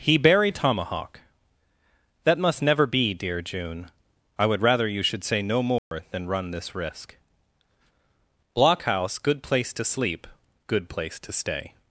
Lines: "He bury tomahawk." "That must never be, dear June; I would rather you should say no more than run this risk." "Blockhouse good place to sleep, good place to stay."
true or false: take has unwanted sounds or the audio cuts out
true